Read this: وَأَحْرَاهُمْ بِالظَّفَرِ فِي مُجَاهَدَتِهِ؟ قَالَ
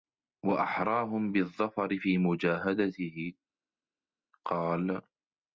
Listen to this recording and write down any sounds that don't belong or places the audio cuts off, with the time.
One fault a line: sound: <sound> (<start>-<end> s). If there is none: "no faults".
no faults